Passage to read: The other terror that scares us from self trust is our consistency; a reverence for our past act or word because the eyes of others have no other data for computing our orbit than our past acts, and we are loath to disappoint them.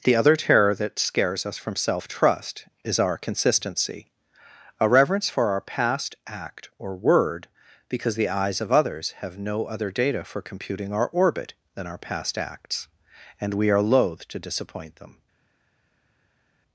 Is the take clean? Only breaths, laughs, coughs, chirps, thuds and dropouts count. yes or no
yes